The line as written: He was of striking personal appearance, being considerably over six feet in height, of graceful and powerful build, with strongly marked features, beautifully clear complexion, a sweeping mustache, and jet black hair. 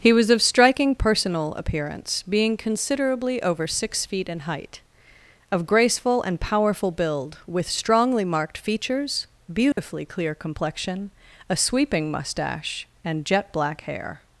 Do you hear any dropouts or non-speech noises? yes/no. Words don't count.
yes